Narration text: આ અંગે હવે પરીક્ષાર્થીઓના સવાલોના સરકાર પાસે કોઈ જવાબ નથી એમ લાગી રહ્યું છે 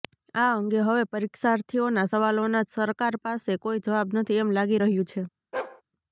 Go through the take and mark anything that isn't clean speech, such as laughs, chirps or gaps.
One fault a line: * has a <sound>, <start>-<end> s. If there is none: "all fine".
* has a bark, 5.5-5.8 s